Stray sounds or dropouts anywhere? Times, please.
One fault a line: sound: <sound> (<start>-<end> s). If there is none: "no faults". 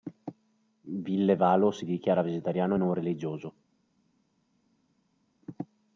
no faults